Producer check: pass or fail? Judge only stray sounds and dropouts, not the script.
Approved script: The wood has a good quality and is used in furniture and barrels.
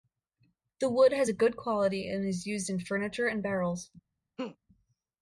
fail